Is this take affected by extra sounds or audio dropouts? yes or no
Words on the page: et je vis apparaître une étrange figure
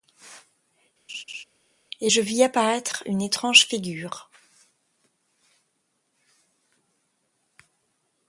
yes